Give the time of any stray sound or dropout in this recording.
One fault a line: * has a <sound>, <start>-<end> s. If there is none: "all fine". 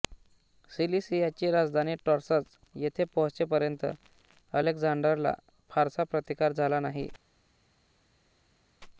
all fine